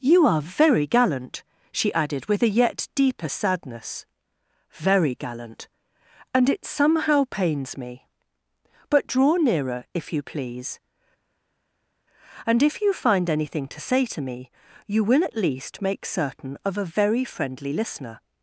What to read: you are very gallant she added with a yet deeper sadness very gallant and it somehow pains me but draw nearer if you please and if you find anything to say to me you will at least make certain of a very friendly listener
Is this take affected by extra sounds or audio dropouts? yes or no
no